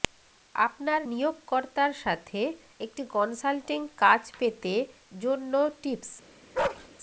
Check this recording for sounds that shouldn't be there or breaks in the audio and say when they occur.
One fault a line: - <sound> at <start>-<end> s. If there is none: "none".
- bark at 6.5-6.9 s